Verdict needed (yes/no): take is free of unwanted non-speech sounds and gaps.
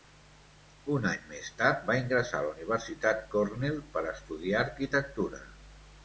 yes